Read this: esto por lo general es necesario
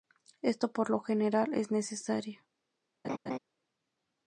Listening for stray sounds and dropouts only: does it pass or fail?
fail